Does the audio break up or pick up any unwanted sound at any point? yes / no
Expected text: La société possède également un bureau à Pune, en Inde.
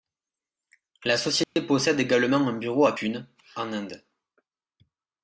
yes